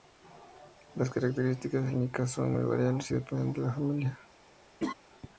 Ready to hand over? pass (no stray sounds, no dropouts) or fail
fail